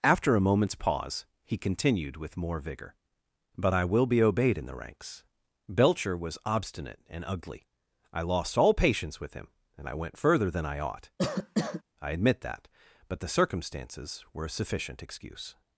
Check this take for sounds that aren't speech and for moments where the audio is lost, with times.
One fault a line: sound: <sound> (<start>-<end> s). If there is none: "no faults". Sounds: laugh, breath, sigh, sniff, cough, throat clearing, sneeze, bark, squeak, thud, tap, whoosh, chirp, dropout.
sound: cough (11.2-11.8 s)